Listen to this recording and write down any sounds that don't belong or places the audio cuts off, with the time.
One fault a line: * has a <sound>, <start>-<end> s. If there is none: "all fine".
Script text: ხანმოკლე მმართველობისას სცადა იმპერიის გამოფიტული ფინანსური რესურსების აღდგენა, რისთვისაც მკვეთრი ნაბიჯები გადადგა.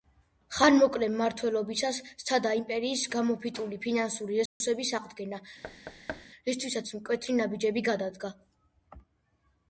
* has a dropout, 4.5-4.6 s
* has a thud, 5.6-6.3 s